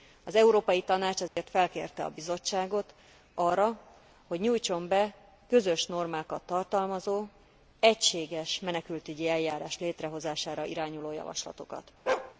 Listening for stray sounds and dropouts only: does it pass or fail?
fail